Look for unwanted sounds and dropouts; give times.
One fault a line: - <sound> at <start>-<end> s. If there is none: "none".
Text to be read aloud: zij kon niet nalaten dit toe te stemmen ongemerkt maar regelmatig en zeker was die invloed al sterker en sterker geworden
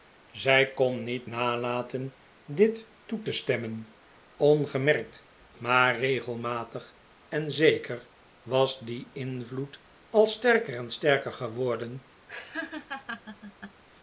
- laugh at 12.3-13.8 s